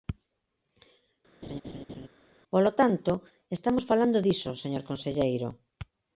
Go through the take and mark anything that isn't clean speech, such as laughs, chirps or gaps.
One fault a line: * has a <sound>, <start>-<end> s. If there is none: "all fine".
* has a laugh, 1.4-2.1 s